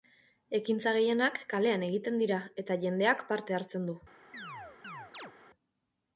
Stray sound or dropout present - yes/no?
yes